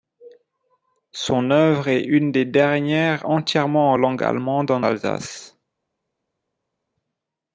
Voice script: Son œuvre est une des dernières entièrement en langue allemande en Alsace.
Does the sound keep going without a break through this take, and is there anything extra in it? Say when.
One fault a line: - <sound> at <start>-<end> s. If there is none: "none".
none